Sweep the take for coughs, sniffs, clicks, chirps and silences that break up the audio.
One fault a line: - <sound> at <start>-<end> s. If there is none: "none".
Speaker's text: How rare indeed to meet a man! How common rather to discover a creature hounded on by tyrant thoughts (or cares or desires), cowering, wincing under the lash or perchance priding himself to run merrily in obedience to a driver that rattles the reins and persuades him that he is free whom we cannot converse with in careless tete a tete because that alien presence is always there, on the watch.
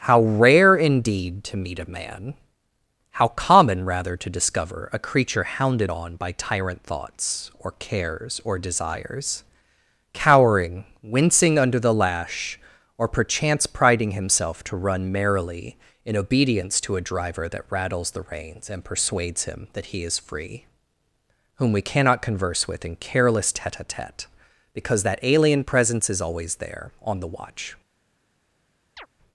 - chirp at 29.0-29.1 s